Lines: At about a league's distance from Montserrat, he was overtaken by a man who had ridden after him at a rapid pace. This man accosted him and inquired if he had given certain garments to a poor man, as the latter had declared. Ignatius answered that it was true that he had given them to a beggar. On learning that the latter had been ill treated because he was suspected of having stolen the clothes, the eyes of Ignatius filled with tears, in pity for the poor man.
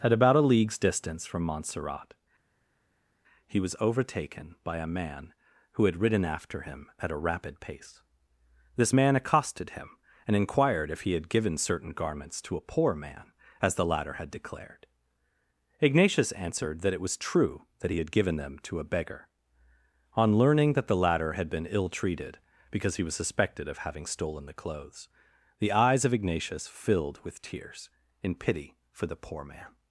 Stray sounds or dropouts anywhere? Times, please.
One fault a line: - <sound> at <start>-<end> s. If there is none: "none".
none